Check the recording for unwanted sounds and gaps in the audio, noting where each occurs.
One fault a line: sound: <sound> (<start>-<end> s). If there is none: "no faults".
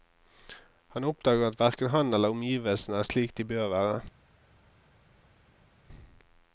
no faults